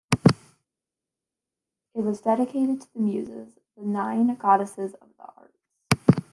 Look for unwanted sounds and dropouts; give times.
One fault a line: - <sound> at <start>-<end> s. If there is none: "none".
none